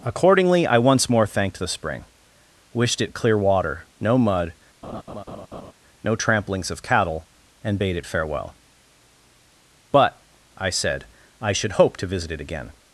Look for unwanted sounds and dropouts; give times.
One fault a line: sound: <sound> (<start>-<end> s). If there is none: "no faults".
sound: laugh (4.8-5.7 s)